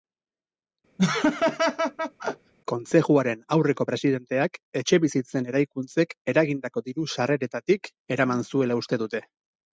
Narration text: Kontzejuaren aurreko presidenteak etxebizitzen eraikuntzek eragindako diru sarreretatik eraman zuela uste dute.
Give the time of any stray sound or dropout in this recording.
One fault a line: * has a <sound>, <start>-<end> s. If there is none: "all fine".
* has a laugh, 1.0-2.5 s